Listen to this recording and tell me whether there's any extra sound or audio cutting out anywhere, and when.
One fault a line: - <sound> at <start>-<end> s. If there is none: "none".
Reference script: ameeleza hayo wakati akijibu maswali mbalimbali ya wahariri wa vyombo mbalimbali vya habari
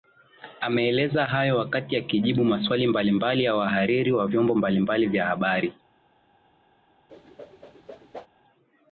- whoosh at 7.1-8.3 s